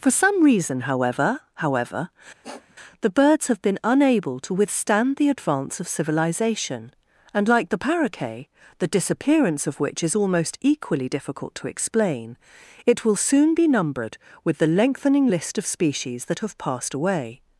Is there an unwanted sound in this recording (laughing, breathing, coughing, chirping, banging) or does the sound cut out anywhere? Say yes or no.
yes